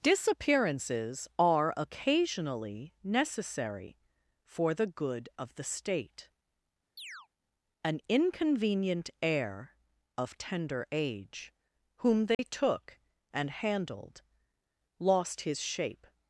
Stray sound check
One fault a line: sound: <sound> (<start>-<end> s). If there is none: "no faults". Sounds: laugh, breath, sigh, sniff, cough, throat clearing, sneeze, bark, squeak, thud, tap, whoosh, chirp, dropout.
sound: chirp (7.0-7.3 s)
sound: dropout (12.3-12.4 s)